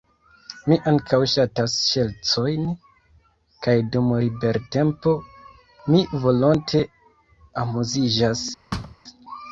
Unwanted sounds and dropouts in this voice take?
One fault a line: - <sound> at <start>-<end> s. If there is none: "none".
- thud at 8.7-9.0 s